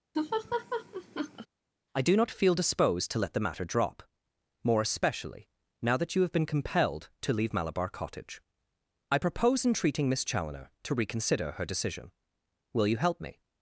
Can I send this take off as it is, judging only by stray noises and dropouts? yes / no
no